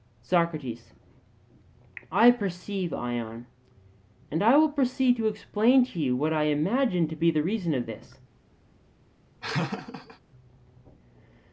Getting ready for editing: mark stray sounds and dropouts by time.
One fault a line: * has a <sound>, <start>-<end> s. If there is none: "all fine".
* has a laugh, 9.4-10.2 s